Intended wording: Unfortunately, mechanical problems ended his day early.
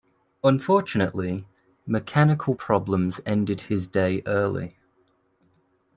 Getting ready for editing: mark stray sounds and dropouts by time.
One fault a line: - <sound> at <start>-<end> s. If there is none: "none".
none